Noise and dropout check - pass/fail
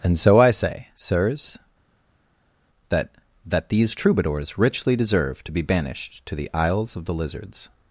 pass